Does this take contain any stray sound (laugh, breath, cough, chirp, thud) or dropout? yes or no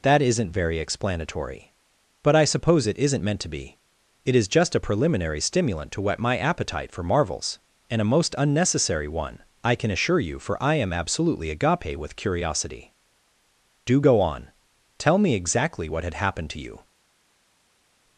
no